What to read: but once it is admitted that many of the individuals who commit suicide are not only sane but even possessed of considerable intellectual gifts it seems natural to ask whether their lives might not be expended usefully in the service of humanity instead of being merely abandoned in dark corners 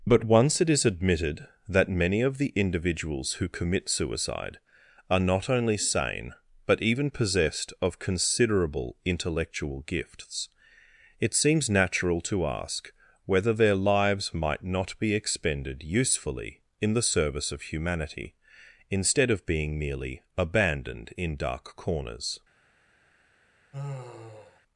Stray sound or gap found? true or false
true